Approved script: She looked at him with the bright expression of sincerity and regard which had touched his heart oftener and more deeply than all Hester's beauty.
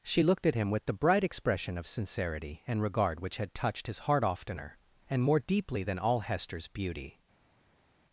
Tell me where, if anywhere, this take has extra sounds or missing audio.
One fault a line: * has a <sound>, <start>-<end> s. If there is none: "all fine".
all fine